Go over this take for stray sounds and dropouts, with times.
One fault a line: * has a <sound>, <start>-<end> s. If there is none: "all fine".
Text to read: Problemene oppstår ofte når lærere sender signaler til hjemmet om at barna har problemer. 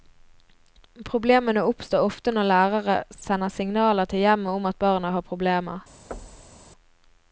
* has a thud, 6.1-6.7 s